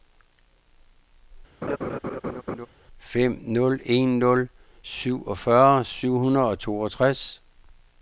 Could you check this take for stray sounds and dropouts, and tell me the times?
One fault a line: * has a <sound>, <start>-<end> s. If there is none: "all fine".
* has a laugh, 1.6-2.7 s